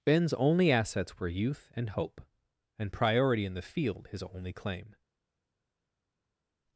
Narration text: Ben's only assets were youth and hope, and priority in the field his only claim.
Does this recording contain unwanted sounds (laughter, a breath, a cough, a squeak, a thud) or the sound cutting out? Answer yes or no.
no